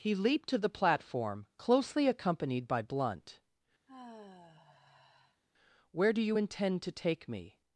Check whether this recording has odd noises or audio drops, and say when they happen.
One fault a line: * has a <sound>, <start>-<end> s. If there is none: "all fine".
* has a sigh, 3.9-5.4 s